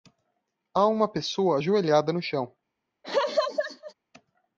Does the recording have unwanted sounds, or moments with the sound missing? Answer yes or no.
yes